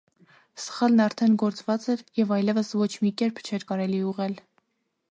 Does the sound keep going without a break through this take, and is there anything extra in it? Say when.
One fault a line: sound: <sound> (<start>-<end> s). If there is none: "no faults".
no faults